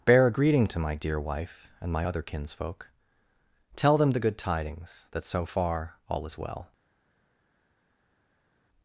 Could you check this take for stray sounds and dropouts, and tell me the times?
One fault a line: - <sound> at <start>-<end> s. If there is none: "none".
none